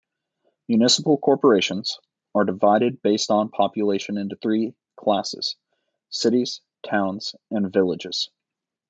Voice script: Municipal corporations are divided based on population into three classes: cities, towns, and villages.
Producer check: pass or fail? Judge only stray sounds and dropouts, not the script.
pass